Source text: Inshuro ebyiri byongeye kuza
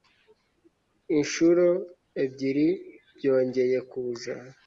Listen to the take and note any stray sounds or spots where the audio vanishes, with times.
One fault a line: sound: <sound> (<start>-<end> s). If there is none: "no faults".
no faults